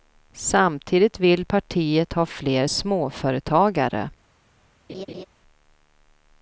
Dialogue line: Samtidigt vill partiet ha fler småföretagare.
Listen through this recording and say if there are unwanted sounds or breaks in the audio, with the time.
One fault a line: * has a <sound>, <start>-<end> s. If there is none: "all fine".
* has a laugh, 4.9-5.3 s